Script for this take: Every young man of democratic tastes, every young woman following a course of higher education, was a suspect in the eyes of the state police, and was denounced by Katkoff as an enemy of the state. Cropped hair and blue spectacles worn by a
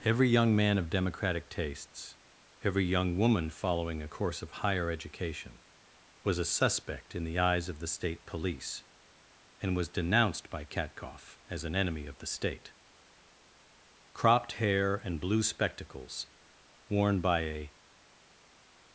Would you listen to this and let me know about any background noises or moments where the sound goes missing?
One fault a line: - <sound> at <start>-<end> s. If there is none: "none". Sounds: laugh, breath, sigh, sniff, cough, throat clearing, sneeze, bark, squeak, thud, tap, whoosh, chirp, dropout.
none